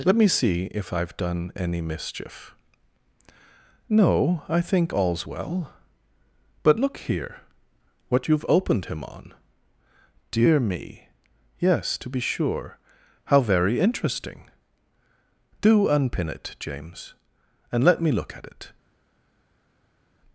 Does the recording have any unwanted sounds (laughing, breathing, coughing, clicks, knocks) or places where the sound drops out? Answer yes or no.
no